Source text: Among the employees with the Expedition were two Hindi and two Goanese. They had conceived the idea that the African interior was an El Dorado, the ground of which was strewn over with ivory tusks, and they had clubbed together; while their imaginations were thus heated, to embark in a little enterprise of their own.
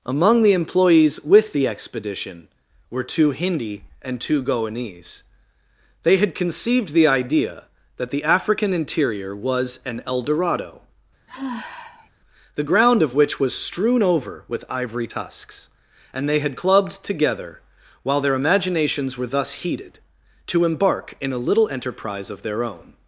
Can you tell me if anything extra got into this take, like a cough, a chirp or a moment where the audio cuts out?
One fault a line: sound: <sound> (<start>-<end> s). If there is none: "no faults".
sound: sigh (11.3-12.1 s)